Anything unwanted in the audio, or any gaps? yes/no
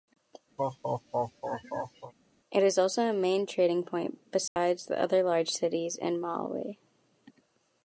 yes